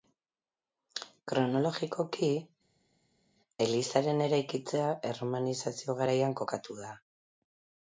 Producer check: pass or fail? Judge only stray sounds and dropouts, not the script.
pass